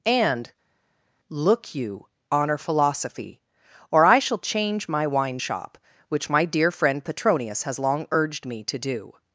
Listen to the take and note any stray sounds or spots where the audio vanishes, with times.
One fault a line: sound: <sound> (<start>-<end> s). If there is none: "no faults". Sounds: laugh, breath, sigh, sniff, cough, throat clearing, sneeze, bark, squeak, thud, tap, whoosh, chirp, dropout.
no faults